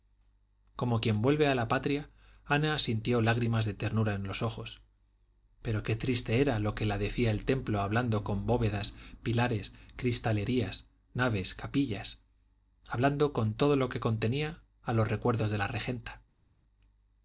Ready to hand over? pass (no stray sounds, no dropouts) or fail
pass